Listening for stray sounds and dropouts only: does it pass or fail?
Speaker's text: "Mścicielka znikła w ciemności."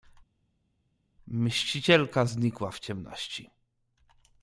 pass